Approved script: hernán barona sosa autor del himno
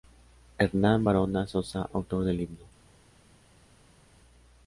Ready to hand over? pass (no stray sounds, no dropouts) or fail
pass